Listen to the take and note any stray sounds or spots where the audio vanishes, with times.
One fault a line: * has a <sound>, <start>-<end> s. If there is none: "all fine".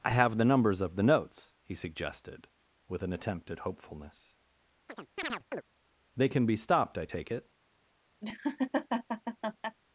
* has a chirp, 4.9-5.6 s
* has a laugh, 8.2-9.8 s